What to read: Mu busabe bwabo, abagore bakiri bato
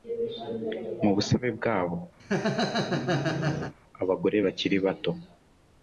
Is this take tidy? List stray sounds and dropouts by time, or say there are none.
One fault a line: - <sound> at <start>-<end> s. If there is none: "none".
- laugh at 2.2-3.7 s